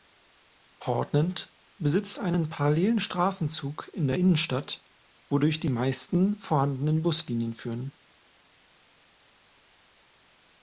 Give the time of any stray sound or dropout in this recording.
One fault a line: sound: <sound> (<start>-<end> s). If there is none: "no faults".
no faults